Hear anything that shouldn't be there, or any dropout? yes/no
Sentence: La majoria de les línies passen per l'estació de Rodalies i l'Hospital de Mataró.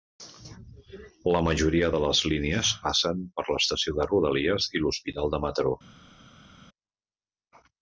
no